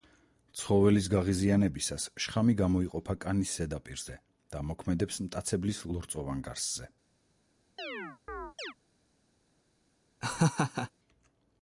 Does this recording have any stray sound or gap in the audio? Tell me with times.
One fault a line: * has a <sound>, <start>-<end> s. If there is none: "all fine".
* has a chirp, 7.8-8.7 s
* has a laugh, 10.2-10.9 s